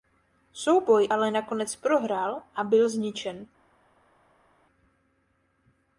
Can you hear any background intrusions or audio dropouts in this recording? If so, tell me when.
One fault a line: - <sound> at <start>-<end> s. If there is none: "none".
none